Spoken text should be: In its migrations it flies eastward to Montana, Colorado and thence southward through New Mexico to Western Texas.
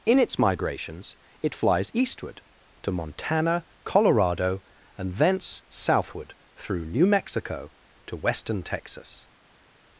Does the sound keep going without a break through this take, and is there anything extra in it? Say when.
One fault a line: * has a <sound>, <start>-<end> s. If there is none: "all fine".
all fine